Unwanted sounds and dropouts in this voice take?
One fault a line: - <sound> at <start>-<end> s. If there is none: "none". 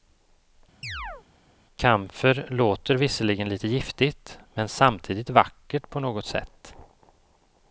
- chirp at 0.8-1.2 s